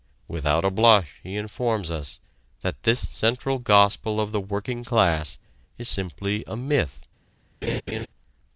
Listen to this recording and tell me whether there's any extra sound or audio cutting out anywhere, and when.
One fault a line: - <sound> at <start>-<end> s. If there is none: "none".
- laugh at 7.6-8.1 s